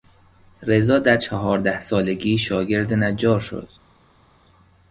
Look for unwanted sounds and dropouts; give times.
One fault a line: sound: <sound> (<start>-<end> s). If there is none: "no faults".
no faults